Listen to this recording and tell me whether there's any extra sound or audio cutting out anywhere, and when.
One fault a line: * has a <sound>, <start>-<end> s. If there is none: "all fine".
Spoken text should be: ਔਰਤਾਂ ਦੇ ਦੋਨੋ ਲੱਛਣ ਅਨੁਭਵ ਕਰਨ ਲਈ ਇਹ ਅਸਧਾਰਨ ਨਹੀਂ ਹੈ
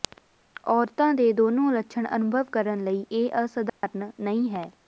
* has a dropout, 3.7-3.8 s